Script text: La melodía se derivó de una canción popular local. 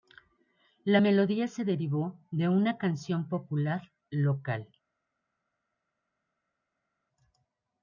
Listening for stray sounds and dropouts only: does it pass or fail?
pass